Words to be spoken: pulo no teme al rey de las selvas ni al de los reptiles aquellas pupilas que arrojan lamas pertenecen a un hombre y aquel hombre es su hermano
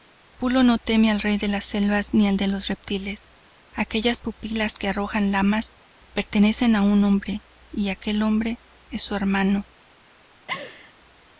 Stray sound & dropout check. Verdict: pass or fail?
fail